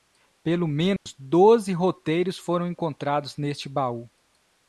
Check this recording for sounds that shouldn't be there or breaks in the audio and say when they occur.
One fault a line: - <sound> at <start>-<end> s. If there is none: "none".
- dropout at 1.0-1.1 s